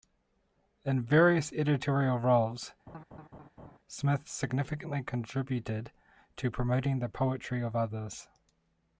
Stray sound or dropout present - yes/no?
yes